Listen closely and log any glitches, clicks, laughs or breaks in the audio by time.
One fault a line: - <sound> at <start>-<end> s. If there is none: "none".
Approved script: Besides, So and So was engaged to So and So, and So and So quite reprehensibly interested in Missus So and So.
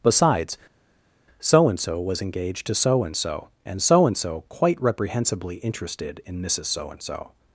none